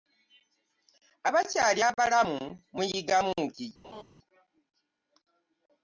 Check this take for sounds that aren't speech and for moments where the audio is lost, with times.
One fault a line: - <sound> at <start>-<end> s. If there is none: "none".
- laugh at 3.8-4.0 s